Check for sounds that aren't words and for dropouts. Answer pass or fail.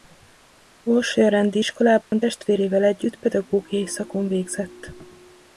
fail